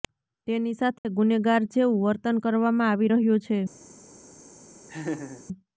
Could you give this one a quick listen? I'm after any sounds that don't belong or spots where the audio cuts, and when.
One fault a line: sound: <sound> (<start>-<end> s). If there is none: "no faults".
sound: dropout (1.0-1.1 s)
sound: laugh (4.9-5.4 s)